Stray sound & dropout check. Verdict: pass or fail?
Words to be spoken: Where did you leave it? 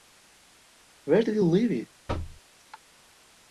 fail